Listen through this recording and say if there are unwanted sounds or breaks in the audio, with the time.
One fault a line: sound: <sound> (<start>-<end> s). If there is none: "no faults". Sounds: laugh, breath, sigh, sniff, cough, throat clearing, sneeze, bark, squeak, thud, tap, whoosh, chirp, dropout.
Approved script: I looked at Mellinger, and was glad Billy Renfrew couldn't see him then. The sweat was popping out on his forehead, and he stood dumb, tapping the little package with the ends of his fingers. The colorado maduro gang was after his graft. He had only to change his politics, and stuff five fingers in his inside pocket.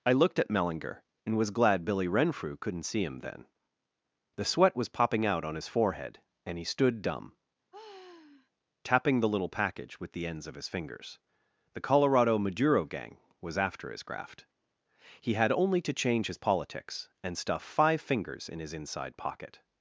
sound: sigh (7.7-8.5 s)